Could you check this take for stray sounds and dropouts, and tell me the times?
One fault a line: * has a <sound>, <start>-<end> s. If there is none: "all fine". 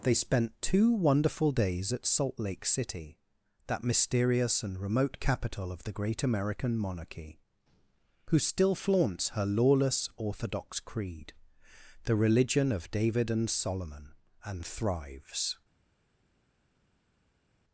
all fine